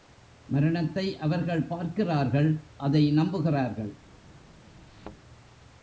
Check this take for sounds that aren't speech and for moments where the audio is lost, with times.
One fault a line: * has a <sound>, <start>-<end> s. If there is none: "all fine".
* has a thud, 4.9-5.2 s